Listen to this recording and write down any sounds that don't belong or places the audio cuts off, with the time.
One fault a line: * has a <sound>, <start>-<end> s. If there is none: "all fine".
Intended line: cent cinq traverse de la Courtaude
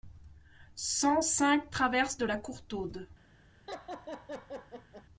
* has a laugh, 3.7-5.0 s